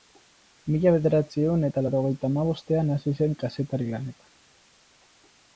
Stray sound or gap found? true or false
false